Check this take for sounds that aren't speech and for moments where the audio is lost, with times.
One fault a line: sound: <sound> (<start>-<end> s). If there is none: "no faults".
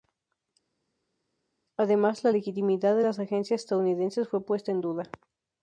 no faults